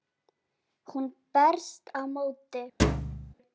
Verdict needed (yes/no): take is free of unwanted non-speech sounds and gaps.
no